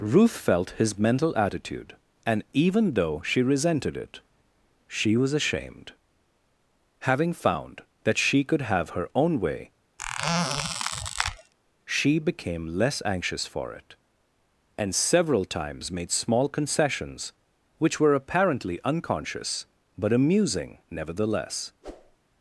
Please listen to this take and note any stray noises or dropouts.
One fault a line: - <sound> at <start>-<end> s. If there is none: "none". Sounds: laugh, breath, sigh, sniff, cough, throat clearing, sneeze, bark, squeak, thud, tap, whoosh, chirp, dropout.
- squeak at 10.0-11.5 s
- whoosh at 21.8-22.2 s